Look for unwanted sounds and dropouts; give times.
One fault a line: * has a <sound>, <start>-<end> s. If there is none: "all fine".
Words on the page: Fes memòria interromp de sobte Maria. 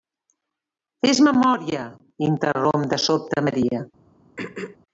* has a throat clearing, 4.4-4.8 s